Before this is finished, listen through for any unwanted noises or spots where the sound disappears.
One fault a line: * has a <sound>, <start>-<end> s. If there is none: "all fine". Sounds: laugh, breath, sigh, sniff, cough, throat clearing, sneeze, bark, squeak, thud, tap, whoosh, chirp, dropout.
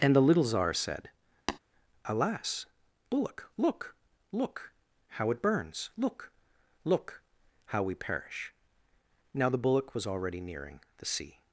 * has a tap, 1.5-1.6 s